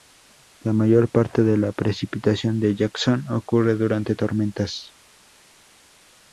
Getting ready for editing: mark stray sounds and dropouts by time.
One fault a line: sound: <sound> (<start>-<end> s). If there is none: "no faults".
no faults